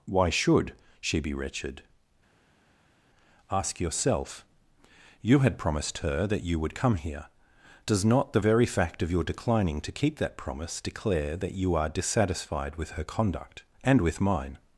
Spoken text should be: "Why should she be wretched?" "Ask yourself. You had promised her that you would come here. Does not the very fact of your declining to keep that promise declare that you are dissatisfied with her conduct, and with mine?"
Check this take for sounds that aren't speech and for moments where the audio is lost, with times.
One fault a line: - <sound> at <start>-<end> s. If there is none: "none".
none